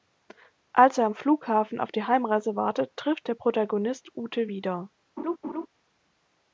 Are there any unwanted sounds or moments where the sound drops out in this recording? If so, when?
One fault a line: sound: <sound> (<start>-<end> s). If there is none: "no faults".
sound: laugh (5.2-5.7 s)